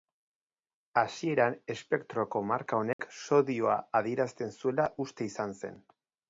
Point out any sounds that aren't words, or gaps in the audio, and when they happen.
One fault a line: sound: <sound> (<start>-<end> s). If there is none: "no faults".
sound: dropout (2.9-3.0 s)